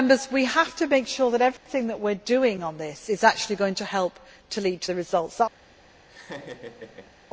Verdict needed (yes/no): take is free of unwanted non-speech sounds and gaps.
no